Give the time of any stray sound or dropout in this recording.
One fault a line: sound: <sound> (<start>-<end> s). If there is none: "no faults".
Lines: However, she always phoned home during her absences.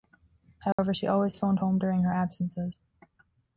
sound: dropout (0.7-0.8 s)